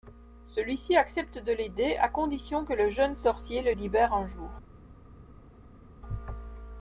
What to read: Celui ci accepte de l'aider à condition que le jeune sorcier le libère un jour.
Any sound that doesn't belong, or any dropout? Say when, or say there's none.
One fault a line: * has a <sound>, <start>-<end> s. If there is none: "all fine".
all fine